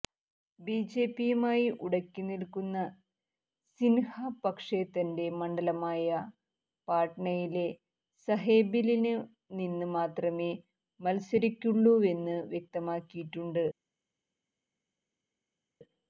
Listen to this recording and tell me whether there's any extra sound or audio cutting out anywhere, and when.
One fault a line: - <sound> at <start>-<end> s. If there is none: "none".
none